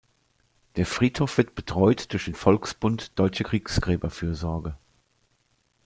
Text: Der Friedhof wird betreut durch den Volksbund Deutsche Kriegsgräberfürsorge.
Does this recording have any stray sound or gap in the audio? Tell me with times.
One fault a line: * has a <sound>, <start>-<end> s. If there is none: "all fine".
all fine